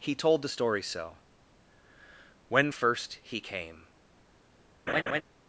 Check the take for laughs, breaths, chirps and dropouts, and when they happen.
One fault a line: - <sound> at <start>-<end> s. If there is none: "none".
- laugh at 4.9-5.2 s